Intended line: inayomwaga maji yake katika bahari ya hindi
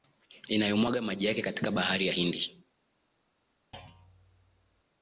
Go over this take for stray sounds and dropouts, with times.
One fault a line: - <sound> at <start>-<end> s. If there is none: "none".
- thud at 3.7-4.8 s